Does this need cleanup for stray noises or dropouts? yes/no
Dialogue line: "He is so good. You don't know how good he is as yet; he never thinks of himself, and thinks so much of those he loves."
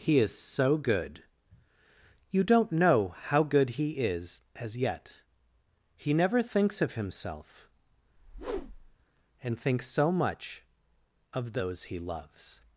yes